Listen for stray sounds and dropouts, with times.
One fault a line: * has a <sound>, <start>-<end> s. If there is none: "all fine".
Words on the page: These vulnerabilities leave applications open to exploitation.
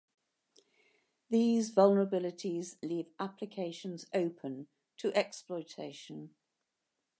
all fine